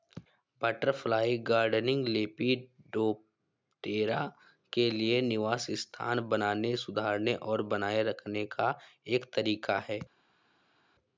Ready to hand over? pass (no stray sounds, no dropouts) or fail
pass